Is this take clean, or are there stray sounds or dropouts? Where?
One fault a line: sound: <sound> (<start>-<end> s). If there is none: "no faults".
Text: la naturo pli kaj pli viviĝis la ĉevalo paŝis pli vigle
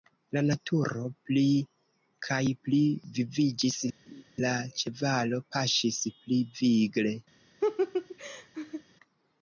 sound: laugh (4.1-4.2 s)
sound: laugh (7.6-8.8 s)